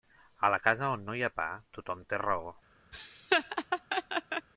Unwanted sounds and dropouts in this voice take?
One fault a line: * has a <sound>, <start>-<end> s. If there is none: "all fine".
* has a laugh, 2.9-4.5 s